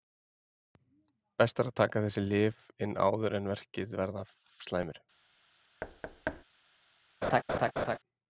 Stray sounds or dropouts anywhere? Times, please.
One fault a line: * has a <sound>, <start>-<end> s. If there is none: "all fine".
* has a thud, 5.8-6.4 s
* has a laugh, 7.2-8.0 s